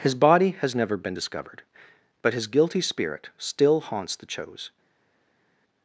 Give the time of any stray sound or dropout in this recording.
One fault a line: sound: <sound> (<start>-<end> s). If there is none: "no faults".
no faults